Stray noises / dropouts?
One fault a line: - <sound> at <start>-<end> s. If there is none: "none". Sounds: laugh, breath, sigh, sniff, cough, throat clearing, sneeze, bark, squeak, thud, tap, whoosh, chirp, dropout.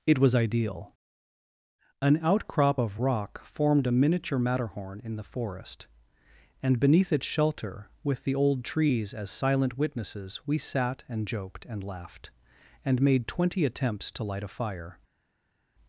none